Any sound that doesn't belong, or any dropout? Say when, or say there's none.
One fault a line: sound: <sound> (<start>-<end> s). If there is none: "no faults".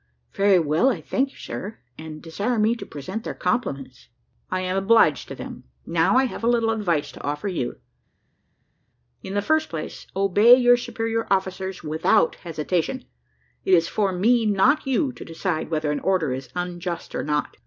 no faults